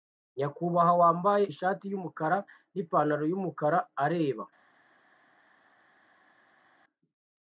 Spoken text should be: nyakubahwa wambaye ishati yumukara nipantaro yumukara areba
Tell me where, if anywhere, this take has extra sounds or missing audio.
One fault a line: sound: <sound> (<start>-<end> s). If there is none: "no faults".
no faults